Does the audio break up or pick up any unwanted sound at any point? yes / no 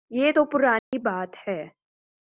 yes